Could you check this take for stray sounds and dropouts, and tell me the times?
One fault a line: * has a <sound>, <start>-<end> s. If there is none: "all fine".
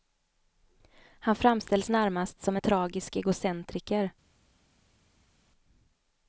all fine